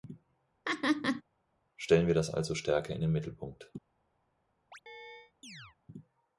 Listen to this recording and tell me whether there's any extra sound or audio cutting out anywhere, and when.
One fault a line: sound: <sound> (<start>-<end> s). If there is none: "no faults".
sound: laugh (0.6-1.2 s)
sound: chirp (4.7-5.8 s)